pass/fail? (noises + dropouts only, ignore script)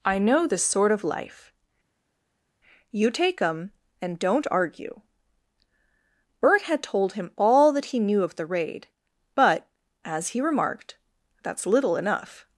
pass